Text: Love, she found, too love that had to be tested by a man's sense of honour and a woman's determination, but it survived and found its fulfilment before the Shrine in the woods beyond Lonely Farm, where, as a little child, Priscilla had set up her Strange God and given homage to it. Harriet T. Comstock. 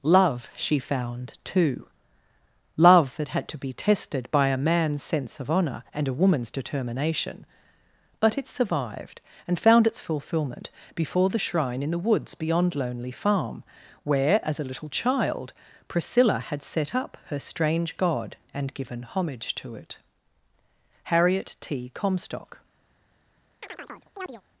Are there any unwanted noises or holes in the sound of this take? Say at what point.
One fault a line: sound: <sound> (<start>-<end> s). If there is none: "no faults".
sound: chirp (23.6-24.4 s)